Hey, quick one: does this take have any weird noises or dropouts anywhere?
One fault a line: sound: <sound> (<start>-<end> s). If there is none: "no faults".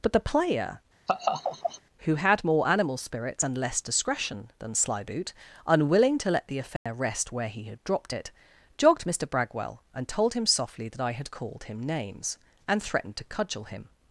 sound: laugh (1.1-1.8 s)
sound: dropout (6.8-6.9 s)